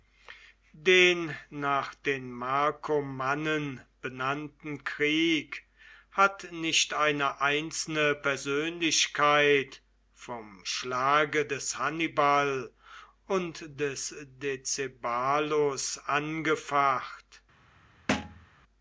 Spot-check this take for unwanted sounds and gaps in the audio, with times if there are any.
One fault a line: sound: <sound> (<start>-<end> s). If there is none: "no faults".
sound: thud (18.1-18.5 s)